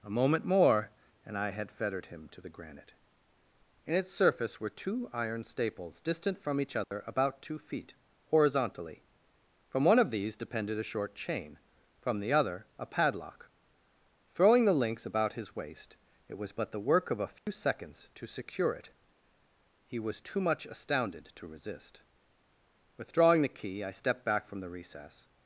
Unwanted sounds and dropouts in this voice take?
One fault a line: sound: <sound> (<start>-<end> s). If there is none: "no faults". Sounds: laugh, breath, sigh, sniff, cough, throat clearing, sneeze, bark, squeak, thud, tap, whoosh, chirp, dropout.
sound: dropout (6.8-6.9 s)
sound: dropout (17.4-17.5 s)